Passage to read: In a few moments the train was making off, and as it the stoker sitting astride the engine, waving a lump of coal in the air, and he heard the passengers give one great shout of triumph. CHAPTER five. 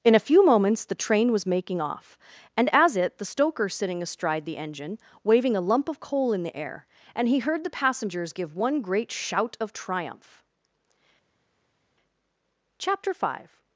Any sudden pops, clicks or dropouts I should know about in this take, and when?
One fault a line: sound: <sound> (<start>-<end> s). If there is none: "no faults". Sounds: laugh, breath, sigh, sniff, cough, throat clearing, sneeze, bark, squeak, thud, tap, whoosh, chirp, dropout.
no faults